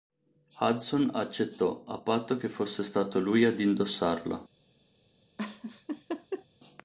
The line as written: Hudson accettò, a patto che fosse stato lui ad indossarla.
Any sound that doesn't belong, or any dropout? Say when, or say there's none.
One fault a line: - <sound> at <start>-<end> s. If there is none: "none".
- laugh at 5.4-6.5 s